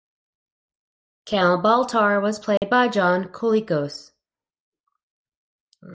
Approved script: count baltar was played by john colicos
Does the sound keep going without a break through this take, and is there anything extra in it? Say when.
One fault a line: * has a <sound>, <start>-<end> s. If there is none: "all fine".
* has a dropout, 2.6-2.6 s